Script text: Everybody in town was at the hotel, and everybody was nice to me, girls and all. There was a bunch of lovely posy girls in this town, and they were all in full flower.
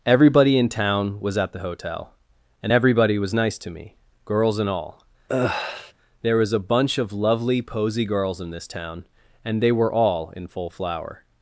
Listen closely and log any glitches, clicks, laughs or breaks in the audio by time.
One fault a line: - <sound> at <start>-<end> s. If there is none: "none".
- sigh at 5.3-5.9 s